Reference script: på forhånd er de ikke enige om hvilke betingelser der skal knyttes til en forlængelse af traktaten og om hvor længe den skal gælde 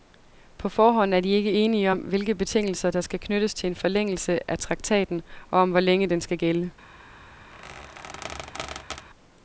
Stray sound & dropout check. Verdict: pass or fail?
fail